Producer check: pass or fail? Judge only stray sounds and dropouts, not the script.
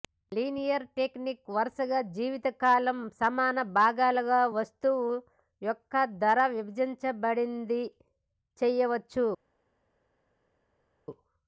pass